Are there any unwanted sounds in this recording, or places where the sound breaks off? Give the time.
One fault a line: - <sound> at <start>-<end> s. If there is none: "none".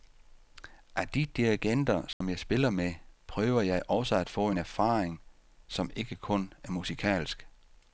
- dropout at 2.1-2.2 s